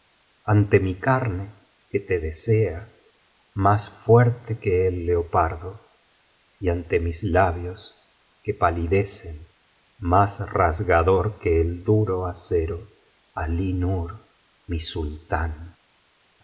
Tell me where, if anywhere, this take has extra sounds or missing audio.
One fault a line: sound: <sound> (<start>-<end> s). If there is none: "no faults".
no faults